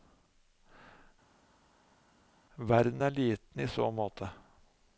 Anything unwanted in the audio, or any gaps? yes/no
no